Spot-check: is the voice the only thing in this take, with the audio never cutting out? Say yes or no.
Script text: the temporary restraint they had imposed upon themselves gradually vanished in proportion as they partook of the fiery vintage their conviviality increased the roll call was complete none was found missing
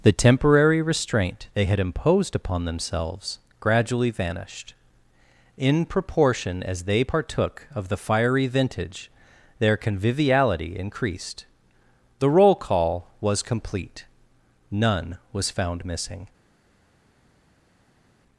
yes